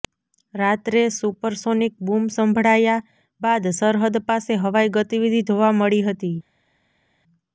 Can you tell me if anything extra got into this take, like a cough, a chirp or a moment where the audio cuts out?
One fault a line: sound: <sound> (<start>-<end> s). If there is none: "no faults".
no faults